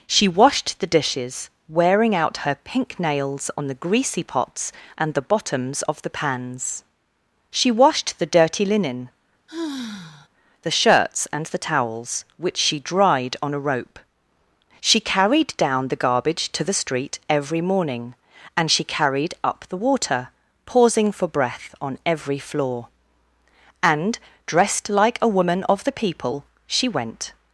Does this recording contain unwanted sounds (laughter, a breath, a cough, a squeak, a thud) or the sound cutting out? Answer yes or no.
yes